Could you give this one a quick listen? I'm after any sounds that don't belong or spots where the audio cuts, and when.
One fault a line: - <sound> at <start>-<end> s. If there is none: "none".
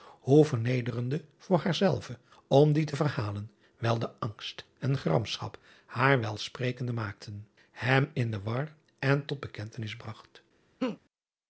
- laugh at 10.8-11.0 s